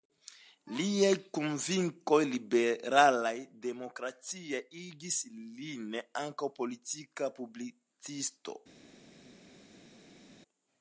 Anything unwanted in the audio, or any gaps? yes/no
no